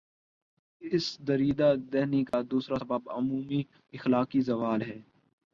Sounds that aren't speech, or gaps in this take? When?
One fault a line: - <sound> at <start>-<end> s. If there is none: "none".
- dropout at 2.3-2.3 s